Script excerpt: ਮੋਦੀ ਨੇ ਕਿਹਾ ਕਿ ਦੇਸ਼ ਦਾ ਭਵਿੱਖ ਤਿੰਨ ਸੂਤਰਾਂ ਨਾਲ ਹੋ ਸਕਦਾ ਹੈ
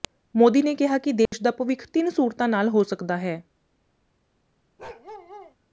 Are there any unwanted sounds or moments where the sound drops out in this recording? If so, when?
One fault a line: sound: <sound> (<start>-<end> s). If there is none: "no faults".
sound: dropout (1.3-1.3 s)
sound: bark (4.8-5.6 s)